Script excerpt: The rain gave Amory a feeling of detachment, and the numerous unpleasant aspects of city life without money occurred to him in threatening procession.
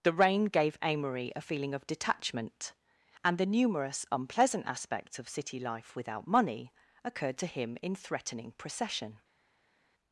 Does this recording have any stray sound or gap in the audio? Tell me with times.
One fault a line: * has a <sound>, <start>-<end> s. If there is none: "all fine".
all fine